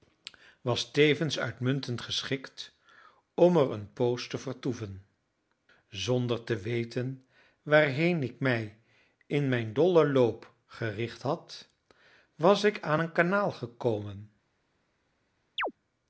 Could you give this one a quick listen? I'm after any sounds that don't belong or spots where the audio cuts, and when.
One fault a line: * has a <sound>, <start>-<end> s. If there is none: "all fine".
* has a chirp, 15.6-15.7 s